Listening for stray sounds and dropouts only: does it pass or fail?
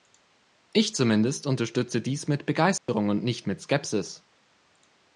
fail